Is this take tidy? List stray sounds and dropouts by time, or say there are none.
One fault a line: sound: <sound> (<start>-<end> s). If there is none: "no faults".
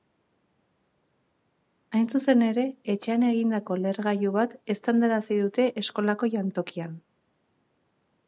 no faults